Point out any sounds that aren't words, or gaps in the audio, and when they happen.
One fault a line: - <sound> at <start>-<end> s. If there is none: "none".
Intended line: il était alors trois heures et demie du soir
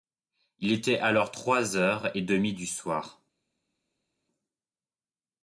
none